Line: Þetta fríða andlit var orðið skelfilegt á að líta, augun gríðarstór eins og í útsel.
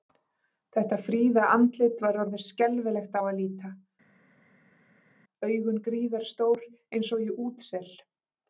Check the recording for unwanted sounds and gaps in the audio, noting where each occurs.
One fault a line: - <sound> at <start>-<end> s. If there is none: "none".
none